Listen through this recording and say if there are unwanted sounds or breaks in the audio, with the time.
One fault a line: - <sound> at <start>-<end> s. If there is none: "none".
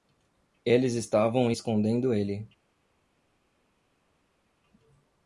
none